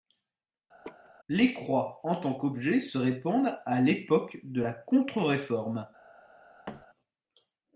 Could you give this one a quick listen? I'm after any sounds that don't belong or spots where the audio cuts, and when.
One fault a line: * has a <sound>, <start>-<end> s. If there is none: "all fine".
* has a laugh, 0.8-1.1 s
* has a thud, 6.7-6.9 s